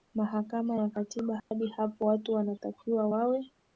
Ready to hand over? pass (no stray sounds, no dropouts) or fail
fail